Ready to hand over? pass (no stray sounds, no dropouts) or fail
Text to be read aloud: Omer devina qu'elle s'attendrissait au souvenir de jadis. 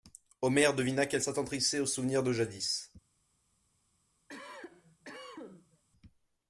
fail